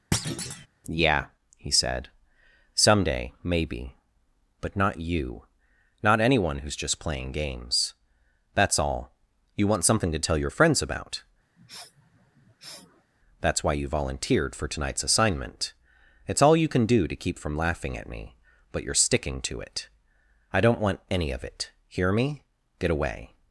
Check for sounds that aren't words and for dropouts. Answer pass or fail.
fail